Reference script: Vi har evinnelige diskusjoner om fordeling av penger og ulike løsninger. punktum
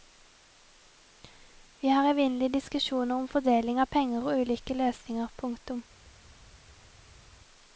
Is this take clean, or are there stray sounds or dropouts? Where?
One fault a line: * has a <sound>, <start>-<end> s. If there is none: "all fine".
all fine